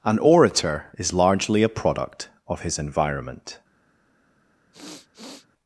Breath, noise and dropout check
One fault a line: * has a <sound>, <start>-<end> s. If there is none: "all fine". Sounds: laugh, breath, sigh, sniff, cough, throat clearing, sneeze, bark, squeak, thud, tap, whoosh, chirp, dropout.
* has a sniff, 4.7-5.5 s